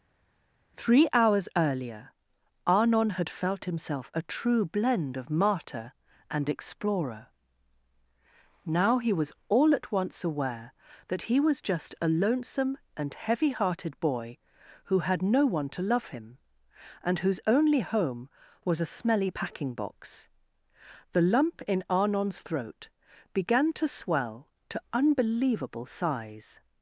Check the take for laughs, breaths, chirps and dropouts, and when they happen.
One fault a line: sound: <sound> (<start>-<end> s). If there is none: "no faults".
no faults